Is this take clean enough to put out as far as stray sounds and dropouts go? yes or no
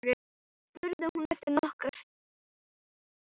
yes